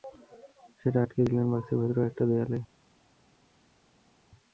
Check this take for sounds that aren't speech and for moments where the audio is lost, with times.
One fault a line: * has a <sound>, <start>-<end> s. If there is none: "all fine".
all fine